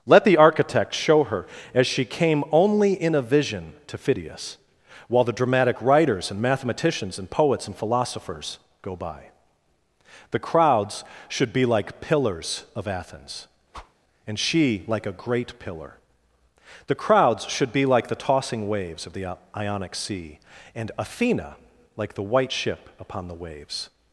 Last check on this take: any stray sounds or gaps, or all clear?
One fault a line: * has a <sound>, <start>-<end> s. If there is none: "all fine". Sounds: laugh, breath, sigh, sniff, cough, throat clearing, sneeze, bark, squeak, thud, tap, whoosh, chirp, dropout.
* has a whoosh, 13.7-13.9 s